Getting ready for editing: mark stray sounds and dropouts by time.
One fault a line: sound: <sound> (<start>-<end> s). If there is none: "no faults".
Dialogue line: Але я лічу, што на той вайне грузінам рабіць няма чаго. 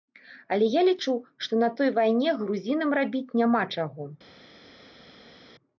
no faults